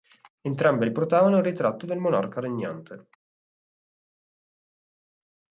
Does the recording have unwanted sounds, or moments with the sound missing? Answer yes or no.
no